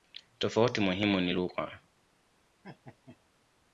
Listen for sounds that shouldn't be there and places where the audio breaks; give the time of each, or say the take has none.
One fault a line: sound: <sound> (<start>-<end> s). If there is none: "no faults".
sound: laugh (2.6-3.2 s)